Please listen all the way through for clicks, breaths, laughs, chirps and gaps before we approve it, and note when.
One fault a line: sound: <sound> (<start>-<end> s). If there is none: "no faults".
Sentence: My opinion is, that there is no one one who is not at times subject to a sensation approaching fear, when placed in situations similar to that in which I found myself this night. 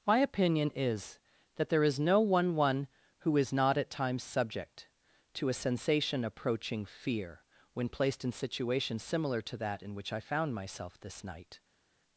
no faults